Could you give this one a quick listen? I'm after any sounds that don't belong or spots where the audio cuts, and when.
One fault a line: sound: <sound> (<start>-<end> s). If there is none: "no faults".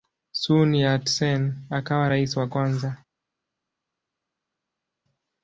no faults